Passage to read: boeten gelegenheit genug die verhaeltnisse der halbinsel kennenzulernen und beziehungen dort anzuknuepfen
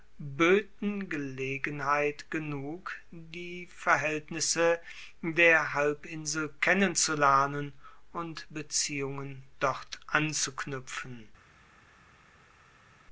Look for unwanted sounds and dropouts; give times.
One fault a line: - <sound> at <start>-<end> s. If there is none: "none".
none